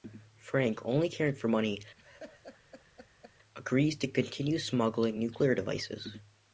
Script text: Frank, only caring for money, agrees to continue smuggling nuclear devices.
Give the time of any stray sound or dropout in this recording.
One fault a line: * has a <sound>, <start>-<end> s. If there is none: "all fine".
* has a laugh, 2.0-3.3 s